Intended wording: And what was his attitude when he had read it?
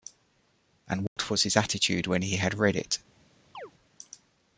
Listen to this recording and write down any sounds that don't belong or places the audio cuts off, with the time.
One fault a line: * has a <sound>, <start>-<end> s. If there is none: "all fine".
* has a dropout, 1.1-1.2 s
* has a chirp, 3.5-3.7 s